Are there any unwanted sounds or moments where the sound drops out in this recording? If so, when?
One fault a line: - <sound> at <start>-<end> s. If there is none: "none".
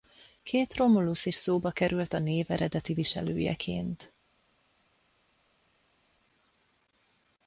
none